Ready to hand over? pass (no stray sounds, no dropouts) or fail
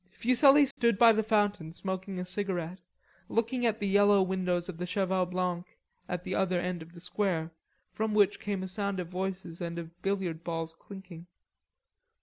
fail